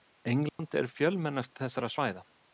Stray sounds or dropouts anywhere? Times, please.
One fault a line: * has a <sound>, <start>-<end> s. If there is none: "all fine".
* has a dropout, 0.5-0.6 s